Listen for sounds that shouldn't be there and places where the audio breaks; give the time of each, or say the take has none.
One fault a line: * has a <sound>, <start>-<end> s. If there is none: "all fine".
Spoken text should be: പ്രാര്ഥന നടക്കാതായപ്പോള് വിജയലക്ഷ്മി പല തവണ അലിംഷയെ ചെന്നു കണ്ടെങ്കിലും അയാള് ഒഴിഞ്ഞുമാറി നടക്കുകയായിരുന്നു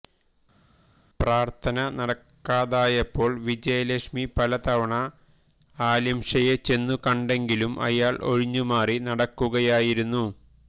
all fine